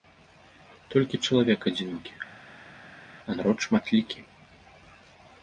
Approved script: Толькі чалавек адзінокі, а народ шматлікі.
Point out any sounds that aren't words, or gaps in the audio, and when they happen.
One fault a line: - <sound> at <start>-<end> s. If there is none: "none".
none